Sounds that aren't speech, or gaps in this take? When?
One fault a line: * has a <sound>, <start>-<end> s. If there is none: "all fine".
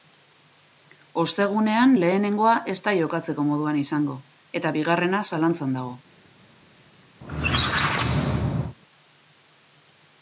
* has a squeak, 7.2-8.8 s